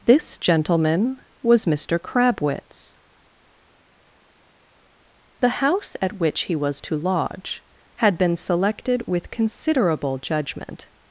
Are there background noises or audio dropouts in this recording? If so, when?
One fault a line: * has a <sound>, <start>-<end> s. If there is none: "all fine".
all fine